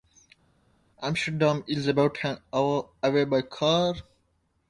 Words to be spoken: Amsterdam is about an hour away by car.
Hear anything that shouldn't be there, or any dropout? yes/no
no